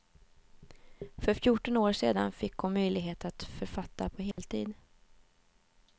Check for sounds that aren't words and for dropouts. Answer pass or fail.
fail